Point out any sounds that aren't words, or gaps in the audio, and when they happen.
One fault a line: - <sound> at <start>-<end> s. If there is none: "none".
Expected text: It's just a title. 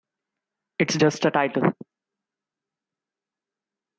none